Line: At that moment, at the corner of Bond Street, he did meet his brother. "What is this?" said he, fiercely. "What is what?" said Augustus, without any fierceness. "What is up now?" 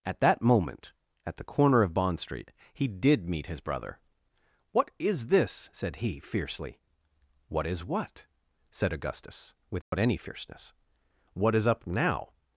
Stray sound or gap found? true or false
true